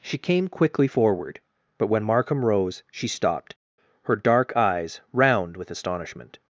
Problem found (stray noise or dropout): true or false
false